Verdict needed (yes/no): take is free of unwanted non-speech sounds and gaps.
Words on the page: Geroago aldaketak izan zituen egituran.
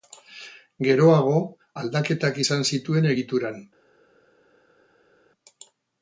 yes